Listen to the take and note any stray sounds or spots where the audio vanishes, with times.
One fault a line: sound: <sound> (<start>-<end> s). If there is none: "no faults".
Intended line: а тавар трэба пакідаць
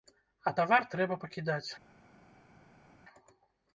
no faults